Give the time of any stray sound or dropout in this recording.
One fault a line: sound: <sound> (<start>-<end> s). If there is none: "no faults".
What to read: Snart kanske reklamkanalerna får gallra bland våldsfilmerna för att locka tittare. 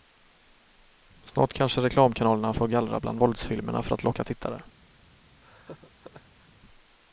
sound: laugh (5.4-6.5 s)